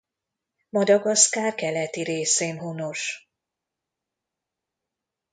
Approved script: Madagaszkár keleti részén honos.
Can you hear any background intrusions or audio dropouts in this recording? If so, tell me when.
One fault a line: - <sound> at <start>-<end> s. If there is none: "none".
none